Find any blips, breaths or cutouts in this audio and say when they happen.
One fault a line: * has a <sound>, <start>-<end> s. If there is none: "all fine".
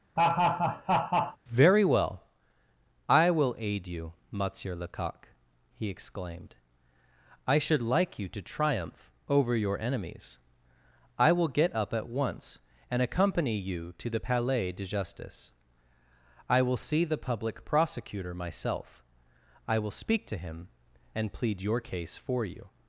* has a laugh, 0.2-1.4 s